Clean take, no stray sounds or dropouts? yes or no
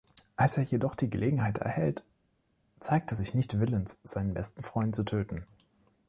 yes